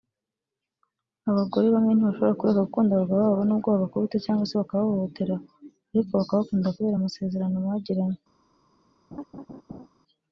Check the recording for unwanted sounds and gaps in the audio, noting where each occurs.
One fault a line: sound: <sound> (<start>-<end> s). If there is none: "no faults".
sound: laugh (9.1-9.9 s)